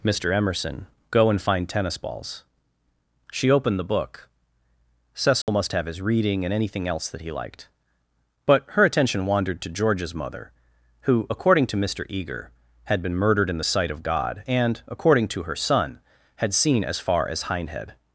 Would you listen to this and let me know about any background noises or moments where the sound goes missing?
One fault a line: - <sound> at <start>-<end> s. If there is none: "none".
- dropout at 5.4-5.5 s